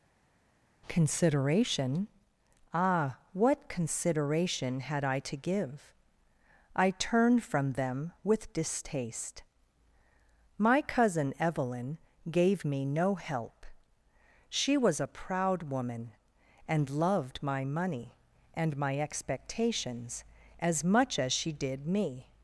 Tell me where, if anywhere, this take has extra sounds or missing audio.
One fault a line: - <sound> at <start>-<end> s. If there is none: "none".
none